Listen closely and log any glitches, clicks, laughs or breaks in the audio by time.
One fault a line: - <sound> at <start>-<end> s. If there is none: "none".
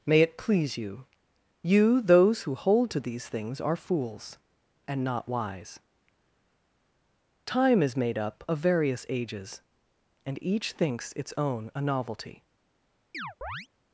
- chirp at 13.1-13.7 s